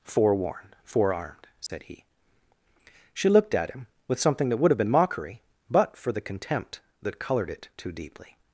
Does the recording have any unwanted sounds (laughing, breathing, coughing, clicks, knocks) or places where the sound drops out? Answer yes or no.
yes